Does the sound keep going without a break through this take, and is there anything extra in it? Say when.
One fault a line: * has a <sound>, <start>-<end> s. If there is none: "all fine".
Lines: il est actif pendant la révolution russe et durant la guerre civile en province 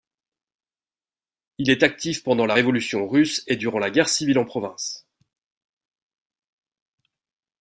all fine